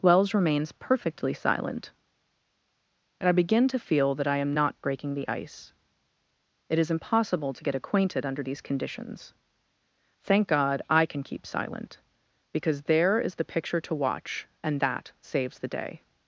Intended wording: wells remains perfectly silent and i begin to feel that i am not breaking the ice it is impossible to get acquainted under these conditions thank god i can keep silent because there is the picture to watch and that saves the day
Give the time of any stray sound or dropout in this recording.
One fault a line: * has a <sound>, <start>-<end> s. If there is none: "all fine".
all fine